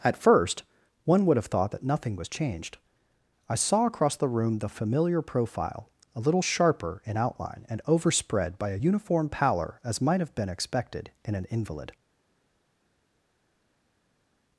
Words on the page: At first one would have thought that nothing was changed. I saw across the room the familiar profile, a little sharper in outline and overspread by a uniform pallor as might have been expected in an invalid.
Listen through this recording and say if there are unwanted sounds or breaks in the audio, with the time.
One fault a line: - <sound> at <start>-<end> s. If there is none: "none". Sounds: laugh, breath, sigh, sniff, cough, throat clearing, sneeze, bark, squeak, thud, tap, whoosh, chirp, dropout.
none